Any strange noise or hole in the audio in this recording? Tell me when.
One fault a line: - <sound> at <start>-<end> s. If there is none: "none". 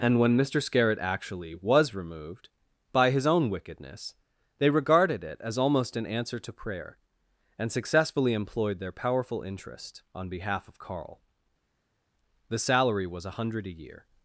none